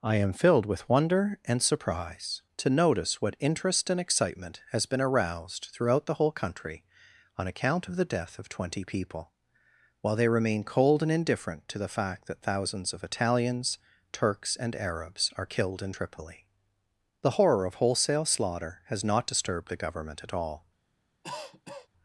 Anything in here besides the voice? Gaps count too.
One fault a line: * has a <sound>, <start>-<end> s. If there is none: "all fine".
* has a cough, 21.2-21.9 s